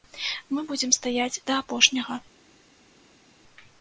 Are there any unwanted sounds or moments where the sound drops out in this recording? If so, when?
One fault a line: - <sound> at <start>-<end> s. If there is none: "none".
none